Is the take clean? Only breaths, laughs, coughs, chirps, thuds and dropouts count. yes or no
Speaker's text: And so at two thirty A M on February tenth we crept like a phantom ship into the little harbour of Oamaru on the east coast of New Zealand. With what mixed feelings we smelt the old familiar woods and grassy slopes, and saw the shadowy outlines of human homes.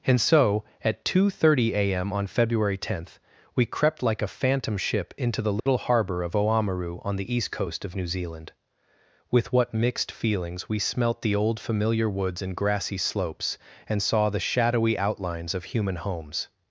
no